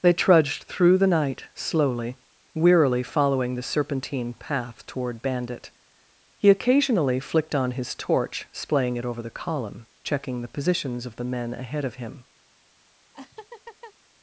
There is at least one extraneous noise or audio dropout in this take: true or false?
true